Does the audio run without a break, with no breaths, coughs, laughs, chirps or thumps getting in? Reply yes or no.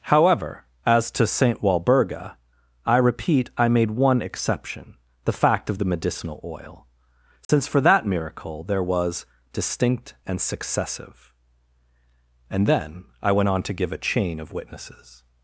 no